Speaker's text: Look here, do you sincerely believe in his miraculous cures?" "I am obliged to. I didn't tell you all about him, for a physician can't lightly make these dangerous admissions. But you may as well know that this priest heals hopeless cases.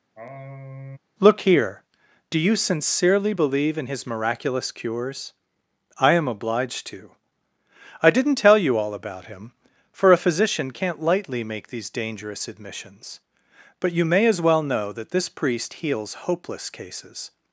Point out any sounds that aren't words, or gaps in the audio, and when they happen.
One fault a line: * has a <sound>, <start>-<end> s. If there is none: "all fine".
* has a sigh, 0.2-1.0 s